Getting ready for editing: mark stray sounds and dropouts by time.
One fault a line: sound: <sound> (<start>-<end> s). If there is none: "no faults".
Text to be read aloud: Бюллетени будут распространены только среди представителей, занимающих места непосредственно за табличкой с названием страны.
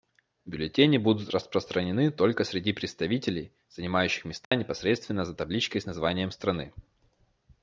sound: dropout (4.4-4.5 s)